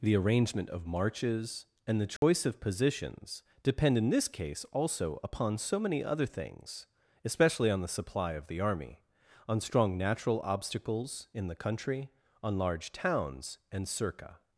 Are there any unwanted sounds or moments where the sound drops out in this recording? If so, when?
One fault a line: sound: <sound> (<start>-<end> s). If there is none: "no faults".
sound: dropout (2.2-2.2 s)